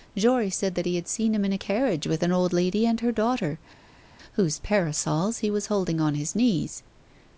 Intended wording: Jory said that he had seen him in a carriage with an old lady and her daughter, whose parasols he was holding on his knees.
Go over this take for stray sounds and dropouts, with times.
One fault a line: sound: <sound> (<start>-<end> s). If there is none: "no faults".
no faults